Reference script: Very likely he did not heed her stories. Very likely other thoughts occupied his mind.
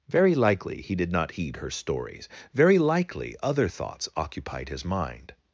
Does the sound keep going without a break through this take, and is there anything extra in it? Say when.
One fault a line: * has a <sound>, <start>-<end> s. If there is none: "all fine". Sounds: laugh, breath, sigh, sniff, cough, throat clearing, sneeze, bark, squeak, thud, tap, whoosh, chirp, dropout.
all fine